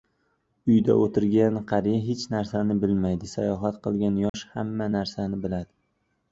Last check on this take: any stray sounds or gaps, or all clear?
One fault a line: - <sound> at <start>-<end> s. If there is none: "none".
- dropout at 4.3-4.3 s